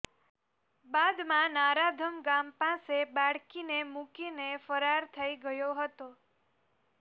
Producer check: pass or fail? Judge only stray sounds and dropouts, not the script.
pass